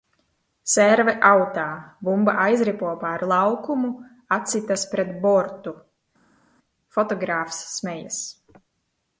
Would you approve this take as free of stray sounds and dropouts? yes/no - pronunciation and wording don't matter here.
yes